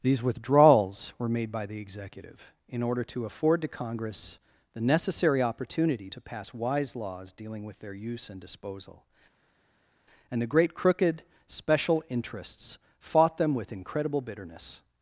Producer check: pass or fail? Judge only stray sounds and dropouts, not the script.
pass